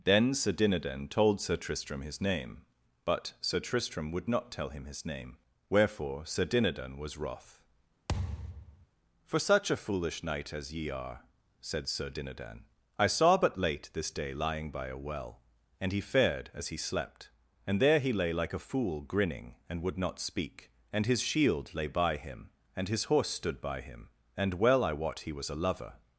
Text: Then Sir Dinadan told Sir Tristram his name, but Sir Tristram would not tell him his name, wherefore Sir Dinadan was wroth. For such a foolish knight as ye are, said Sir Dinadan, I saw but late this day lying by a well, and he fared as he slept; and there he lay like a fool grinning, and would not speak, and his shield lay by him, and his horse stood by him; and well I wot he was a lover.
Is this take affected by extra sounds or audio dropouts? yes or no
yes